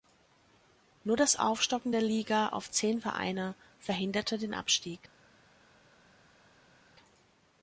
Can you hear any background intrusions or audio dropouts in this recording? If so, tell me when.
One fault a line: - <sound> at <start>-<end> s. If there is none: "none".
none